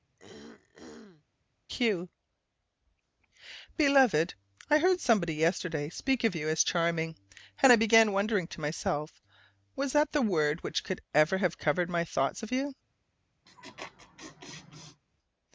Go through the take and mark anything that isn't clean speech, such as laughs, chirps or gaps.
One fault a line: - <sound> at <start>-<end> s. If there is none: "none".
- throat clearing at 0.2-1.2 s
- laugh at 13.5-15.0 s